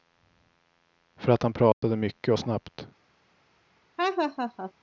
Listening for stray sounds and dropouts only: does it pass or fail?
fail